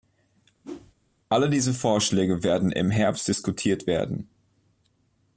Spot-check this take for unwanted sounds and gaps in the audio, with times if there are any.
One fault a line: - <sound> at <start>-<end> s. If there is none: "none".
- whoosh at 0.6-0.9 s